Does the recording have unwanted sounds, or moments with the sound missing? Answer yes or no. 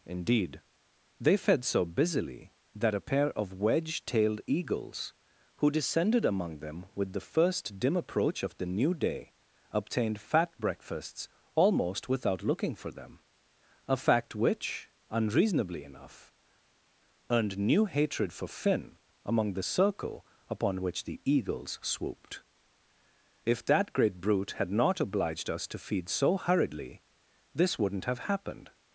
no